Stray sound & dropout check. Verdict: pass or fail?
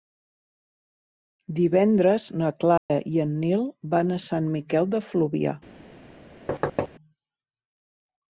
fail